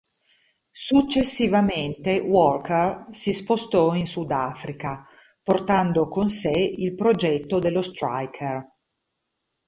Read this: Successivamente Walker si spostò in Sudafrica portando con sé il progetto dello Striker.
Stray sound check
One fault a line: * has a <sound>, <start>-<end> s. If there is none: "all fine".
all fine